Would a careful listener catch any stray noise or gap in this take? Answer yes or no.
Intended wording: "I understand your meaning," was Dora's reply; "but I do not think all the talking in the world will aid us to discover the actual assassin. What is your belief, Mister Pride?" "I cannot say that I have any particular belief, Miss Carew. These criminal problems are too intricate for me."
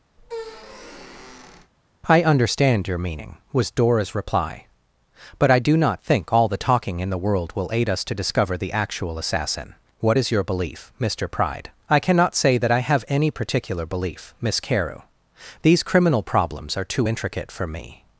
yes